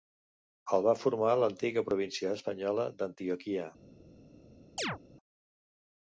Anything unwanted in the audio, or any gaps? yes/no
yes